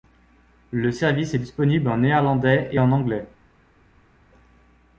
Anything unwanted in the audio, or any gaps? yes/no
no